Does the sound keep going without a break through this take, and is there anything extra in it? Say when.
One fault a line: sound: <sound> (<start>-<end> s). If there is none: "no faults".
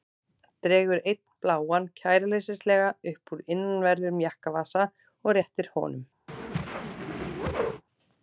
sound: whoosh (6.3-7.8 s)